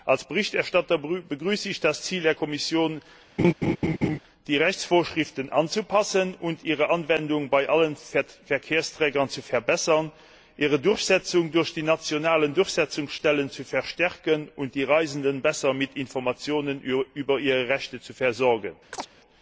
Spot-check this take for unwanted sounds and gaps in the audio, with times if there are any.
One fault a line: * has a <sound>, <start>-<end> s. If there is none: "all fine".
* has a laugh, 3.4-4.2 s
* has a chirp, 18.9-19.1 s